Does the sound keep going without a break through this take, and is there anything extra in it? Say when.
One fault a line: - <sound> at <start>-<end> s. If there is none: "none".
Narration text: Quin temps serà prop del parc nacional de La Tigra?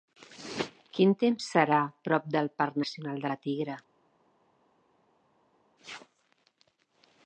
none